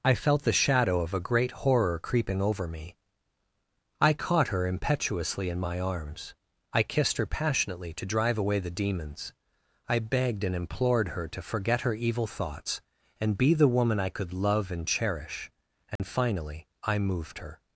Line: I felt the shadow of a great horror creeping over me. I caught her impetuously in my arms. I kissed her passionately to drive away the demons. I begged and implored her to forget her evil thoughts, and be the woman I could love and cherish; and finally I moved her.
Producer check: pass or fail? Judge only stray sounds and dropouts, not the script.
fail